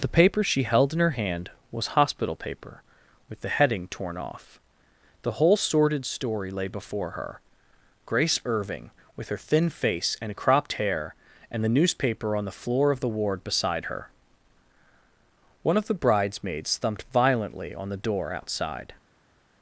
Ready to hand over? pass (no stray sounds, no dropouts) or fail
pass